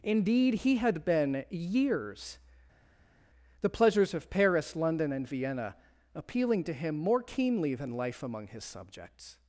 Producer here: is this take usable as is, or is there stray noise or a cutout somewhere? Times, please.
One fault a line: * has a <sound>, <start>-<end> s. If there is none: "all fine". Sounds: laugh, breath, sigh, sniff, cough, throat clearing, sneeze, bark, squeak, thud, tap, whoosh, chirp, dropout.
all fine